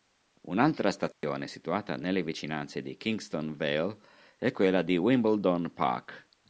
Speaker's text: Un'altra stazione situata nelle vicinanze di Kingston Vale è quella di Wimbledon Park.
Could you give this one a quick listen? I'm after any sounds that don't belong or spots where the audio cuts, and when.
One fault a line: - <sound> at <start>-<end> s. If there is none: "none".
- dropout at 1.1-1.2 s